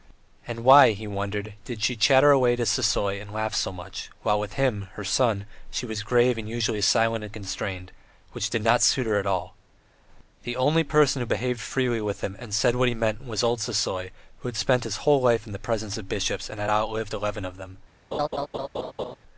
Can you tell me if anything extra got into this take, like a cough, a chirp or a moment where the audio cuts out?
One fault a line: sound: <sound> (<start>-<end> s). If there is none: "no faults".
sound: laugh (18.1-19.2 s)